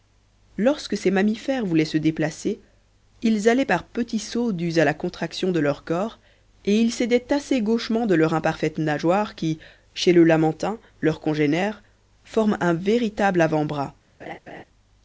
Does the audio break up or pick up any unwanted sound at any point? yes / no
yes